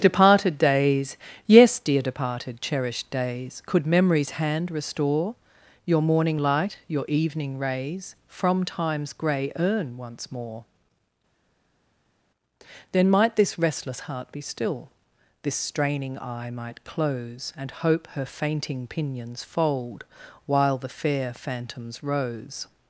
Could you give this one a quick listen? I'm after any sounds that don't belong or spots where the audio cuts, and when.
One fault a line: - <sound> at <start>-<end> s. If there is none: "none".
none